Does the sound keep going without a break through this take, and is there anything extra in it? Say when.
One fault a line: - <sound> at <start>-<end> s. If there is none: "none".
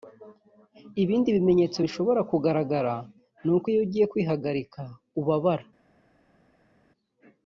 none